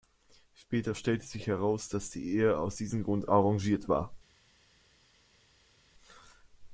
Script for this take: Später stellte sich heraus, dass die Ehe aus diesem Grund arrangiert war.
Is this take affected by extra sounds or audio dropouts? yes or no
no